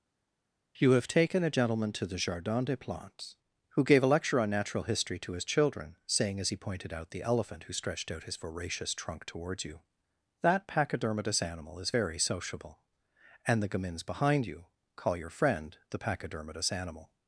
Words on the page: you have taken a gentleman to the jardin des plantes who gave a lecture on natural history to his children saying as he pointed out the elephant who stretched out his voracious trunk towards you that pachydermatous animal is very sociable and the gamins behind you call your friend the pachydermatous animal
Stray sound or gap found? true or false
false